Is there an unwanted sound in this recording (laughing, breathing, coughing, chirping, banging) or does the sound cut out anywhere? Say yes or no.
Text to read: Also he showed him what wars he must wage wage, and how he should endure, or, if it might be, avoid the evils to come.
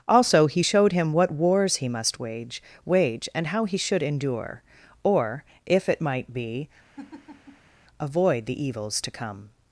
yes